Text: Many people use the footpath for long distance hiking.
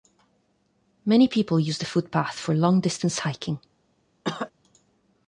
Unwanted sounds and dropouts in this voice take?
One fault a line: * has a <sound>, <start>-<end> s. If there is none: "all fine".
* has a cough, 4.2-4.5 s